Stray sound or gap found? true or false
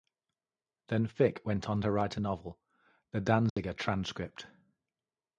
true